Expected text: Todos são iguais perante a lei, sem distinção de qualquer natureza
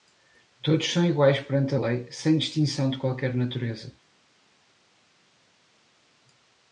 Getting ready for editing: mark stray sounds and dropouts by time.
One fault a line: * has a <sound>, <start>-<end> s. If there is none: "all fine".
all fine